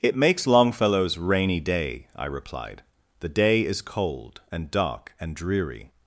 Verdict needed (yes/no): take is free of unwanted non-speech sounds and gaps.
yes